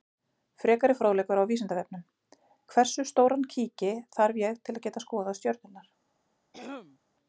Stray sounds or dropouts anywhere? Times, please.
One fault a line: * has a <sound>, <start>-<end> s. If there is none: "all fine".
* has a throat clearing, 6.5-7.0 s